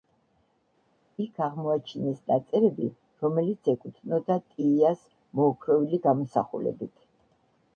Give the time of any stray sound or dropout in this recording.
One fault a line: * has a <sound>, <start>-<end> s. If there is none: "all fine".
all fine